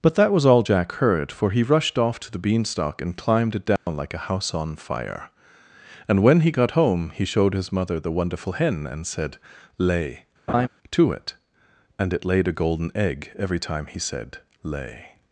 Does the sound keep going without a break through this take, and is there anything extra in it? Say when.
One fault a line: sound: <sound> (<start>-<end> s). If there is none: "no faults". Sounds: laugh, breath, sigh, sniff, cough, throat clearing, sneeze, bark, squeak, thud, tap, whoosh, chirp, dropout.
sound: dropout (3.8-3.9 s)
sound: laugh (10.5-10.7 s)